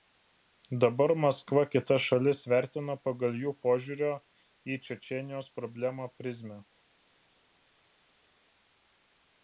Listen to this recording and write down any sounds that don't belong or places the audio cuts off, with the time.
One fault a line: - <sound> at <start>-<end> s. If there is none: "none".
none